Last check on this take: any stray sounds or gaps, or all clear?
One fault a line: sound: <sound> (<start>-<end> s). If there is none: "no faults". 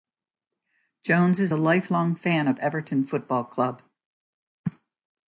no faults